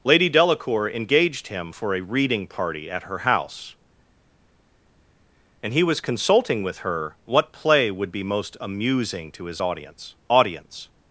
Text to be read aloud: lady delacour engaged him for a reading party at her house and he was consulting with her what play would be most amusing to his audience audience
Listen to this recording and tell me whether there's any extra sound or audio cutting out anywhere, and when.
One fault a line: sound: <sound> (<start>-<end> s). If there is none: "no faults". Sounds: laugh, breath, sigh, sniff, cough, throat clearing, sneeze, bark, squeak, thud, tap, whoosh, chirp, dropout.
no faults